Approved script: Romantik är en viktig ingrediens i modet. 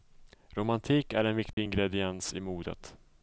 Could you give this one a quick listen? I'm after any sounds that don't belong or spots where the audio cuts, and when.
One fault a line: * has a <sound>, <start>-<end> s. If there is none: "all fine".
* has a dropout, 1.5-1.6 s